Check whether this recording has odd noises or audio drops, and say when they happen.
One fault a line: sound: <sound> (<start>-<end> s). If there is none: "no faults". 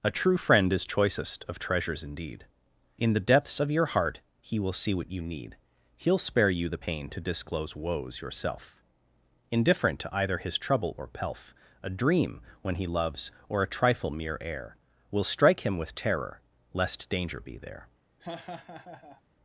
sound: laugh (18.2-19.2 s)